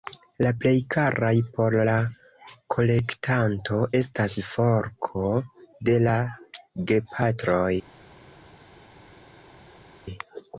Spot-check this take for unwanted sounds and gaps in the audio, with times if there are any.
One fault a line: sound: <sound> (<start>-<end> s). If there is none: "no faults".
no faults